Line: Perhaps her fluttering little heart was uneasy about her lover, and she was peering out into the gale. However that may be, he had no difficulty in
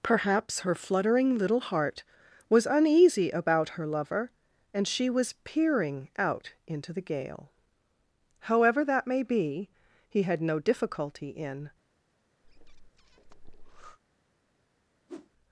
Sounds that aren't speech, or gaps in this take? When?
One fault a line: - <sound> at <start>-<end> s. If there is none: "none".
- breath at 12.4-14.0 s
- whoosh at 15.1-15.3 s